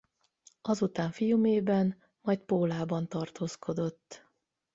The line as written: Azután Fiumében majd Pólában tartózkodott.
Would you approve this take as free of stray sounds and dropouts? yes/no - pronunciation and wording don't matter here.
yes